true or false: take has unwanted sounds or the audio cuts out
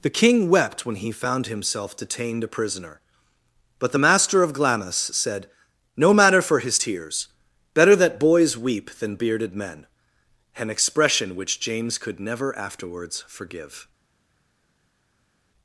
false